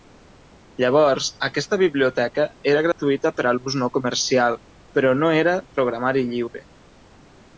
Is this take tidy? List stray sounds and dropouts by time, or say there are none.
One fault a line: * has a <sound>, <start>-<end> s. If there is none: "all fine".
* has a dropout, 2.9-3.0 s